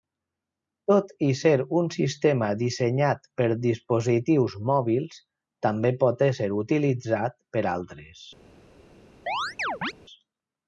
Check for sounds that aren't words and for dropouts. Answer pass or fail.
fail